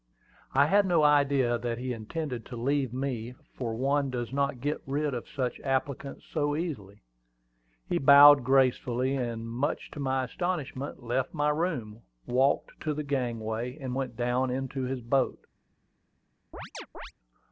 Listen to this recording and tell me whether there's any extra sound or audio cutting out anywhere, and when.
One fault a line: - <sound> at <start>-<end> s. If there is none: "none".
- chirp at 16.5-17.1 s